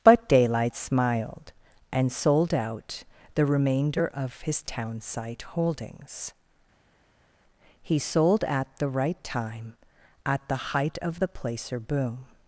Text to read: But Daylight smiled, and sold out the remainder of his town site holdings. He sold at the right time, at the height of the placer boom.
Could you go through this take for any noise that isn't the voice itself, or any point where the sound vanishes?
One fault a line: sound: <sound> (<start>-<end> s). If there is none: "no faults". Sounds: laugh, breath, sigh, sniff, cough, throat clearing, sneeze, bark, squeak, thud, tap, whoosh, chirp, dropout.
no faults